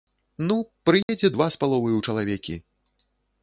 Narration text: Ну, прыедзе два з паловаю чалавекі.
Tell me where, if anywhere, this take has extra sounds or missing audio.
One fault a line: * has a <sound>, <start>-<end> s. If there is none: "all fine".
* has a dropout, 1.0-1.1 s